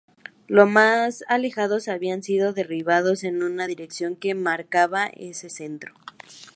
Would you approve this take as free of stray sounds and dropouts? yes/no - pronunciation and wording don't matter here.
yes